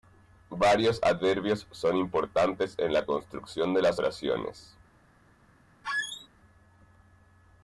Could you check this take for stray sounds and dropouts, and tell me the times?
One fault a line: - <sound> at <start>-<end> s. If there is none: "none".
- squeak at 5.8-6.3 s